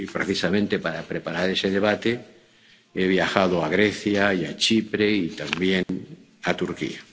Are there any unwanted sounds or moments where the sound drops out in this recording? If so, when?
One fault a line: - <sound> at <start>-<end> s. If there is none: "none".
- dropout at 5.8-5.9 s